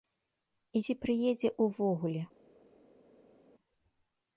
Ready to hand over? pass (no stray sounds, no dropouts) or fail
pass